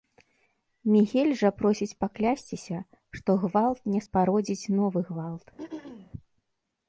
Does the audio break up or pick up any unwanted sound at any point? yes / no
yes